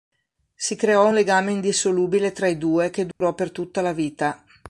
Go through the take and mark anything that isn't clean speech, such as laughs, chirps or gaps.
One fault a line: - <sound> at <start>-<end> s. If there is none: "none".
- dropout at 3.1-3.2 s